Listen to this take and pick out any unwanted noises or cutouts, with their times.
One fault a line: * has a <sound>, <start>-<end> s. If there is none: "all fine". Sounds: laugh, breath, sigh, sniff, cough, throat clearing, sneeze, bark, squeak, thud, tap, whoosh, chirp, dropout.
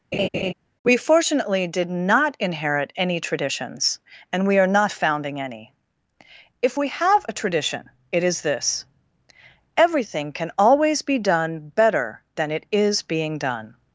* has a laugh, 0.1-0.5 s